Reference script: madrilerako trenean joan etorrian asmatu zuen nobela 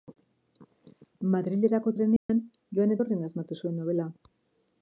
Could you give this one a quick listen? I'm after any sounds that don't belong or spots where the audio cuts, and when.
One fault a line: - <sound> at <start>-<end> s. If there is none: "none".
- dropout at 2.2-2.3 s